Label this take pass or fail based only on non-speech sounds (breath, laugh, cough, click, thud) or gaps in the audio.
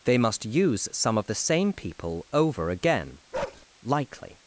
fail